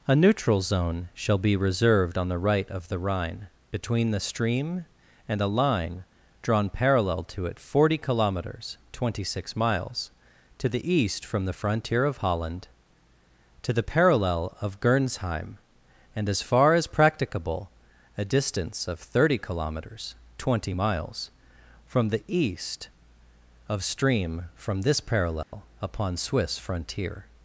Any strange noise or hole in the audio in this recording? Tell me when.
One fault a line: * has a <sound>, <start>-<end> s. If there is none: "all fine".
* has a dropout, 25.4-25.5 s